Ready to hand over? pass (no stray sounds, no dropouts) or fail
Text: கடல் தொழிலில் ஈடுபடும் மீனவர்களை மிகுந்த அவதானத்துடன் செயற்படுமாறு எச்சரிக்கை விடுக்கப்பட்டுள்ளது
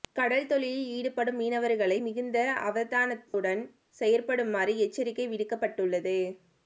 fail